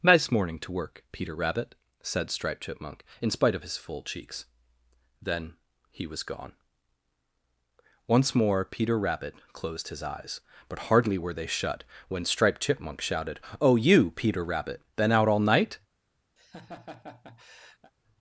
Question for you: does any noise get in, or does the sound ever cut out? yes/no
yes